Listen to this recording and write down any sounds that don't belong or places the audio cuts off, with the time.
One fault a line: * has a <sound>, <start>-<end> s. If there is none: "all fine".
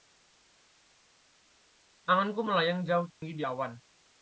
* has a dropout, 3.1-3.2 s